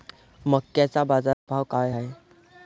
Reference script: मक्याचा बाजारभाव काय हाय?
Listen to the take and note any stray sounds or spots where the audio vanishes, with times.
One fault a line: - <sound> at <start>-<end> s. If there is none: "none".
- dropout at 1.3-1.5 s